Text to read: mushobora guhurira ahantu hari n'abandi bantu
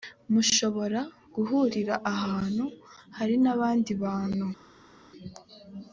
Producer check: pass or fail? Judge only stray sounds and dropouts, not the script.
pass